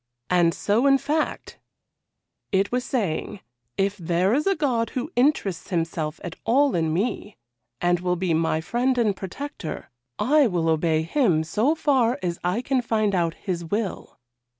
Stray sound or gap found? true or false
false